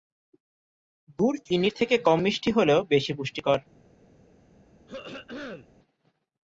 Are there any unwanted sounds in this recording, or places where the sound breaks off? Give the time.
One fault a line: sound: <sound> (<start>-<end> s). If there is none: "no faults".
sound: throat clearing (4.9-5.7 s)